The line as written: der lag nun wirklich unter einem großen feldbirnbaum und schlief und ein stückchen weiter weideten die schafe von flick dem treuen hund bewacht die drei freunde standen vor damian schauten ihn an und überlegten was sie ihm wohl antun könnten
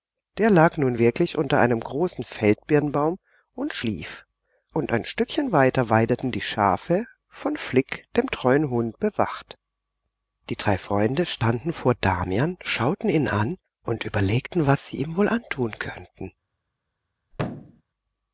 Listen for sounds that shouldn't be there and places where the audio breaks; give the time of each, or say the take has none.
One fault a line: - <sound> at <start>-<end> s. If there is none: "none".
- thud at 17.3-17.8 s